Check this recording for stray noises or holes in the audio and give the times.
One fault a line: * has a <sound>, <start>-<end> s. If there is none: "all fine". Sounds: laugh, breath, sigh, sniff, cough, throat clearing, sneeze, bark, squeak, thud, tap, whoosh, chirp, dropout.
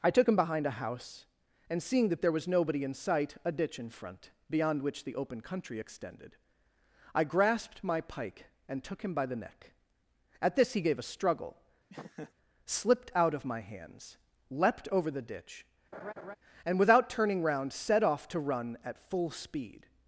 * has a laugh, 11.9-12.3 s
* has a laugh, 15.9-16.4 s